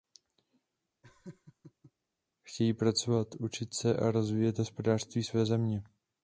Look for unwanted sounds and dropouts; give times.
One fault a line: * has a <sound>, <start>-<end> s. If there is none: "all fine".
* has a laugh, 1.0-1.9 s